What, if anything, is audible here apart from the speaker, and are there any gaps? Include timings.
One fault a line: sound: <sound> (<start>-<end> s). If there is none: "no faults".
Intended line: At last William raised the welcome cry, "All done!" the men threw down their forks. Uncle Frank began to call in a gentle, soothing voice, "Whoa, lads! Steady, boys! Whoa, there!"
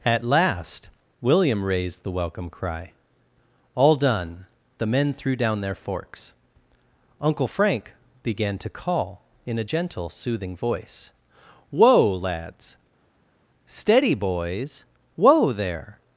no faults